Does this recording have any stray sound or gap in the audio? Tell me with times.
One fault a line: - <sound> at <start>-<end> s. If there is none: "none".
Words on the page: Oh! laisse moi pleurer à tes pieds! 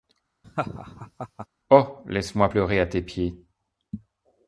- laugh at 0.4-1.5 s